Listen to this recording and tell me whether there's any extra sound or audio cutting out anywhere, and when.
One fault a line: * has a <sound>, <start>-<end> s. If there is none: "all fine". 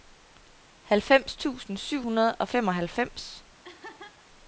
* has a laugh, 3.6-4.2 s